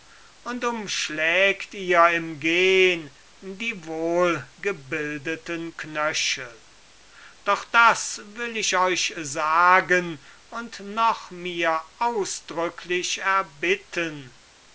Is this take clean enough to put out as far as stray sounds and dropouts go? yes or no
yes